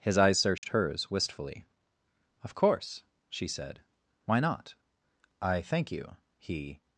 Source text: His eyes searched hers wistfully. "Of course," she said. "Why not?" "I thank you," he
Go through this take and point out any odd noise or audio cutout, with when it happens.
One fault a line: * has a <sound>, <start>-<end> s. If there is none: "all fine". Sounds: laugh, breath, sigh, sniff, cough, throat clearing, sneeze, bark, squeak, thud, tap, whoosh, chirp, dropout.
* has a dropout, 0.6-0.6 s